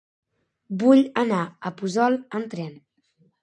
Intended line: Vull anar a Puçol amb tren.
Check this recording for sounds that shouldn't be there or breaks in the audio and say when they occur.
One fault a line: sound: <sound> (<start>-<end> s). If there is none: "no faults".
no faults